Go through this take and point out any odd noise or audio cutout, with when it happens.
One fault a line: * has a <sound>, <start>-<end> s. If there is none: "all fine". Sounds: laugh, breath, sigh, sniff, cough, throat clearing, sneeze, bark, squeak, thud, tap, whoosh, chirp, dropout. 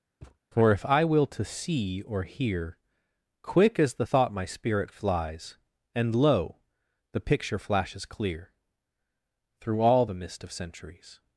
* has a thud, 0.2-0.4 s